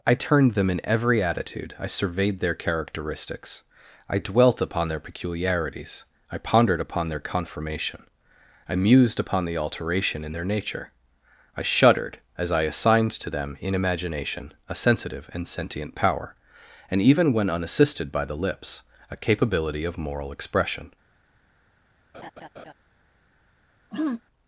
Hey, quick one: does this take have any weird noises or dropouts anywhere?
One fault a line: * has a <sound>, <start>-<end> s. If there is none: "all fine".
* has a laugh, 22.1-22.7 s
* has a throat clearing, 23.9-24.2 s